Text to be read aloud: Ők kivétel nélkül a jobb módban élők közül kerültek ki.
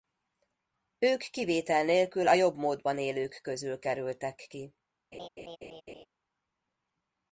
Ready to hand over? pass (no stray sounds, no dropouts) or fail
fail